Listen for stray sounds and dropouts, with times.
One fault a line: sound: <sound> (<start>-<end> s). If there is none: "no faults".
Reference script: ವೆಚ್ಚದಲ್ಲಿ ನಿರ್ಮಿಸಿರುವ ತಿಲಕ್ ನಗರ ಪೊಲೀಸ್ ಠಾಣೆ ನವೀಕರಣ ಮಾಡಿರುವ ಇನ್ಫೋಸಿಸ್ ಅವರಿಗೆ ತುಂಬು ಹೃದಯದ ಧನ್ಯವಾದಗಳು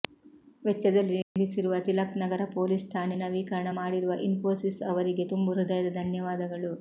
sound: dropout (1.2-1.4 s)